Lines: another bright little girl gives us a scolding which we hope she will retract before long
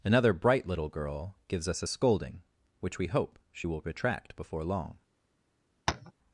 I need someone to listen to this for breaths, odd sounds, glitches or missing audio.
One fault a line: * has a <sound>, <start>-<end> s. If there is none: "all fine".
* has a tap, 5.9-6.1 s